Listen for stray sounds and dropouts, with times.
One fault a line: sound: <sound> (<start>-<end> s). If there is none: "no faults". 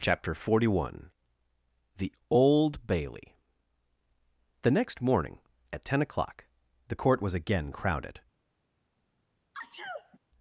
sound: sneeze (9.5-10.2 s)